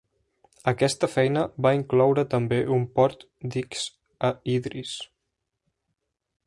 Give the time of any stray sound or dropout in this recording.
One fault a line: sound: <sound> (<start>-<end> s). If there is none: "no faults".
no faults